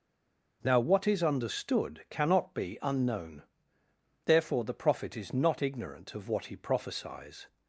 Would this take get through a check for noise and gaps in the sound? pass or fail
pass